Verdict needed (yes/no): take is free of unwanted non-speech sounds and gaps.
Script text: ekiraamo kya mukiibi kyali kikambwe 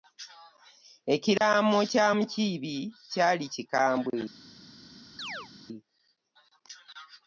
no